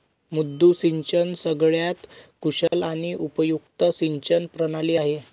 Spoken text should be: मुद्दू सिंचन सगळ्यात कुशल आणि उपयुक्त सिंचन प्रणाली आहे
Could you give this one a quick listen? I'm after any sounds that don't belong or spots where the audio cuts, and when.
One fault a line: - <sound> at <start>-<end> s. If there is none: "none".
- dropout at 2.7-2.7 s